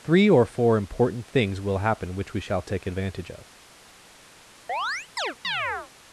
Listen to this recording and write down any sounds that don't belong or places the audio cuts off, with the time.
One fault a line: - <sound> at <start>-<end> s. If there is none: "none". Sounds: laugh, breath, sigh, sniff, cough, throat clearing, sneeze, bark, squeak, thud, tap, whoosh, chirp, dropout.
- chirp at 4.7-5.9 s